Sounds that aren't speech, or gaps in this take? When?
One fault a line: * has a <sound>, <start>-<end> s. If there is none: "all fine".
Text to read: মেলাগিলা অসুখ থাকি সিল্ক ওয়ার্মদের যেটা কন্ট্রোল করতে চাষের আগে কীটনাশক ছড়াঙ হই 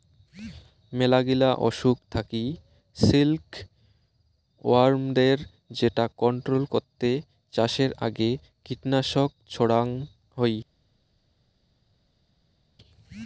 all fine